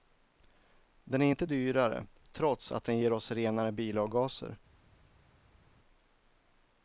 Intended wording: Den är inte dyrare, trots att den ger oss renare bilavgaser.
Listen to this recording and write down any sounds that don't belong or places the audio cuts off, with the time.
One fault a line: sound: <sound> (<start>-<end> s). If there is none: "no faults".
no faults